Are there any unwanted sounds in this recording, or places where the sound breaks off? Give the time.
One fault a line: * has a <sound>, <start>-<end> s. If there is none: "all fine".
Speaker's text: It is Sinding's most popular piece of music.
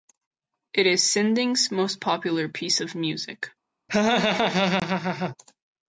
* has a laugh, 3.9-5.4 s